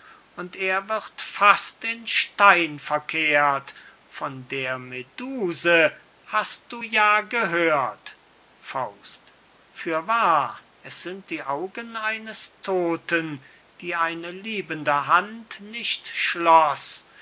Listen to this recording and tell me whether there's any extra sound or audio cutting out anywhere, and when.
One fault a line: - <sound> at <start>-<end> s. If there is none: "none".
none